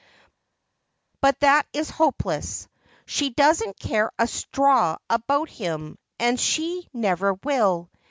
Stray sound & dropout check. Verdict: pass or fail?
pass